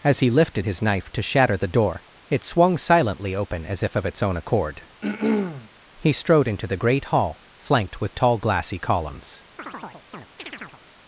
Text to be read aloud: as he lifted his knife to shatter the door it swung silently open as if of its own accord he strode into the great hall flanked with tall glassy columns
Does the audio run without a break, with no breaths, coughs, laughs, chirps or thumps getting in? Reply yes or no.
no